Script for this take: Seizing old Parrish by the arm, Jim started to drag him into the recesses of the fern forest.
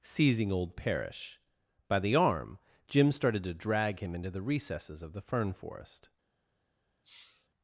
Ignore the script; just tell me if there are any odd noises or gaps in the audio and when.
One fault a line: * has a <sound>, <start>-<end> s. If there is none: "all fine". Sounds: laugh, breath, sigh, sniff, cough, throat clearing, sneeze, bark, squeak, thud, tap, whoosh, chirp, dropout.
* has a sneeze, 7.0-7.5 s